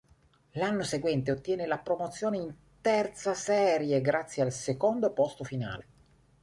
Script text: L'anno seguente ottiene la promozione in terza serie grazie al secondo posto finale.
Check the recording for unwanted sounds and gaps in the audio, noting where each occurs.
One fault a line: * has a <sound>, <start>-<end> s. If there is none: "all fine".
all fine